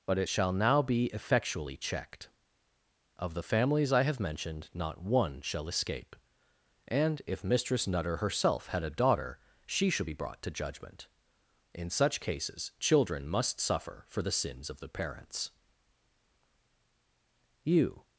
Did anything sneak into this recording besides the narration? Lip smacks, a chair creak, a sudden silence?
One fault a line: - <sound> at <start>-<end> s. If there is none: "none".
none